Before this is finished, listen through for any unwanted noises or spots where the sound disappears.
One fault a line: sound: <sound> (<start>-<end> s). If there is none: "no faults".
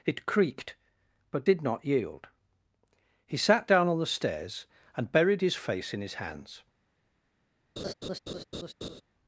sound: laugh (7.8-9.0 s)